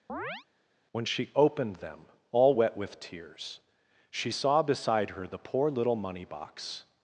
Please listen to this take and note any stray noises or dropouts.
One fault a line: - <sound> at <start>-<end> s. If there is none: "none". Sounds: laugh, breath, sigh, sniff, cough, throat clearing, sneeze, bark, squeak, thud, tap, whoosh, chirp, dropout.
- chirp at 0.1-0.5 s